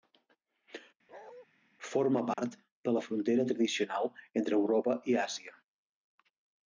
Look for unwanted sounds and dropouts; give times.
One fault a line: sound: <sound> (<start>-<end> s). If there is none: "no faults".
sound: bark (1.1-1.5 s)
sound: dropout (2.3-2.4 s)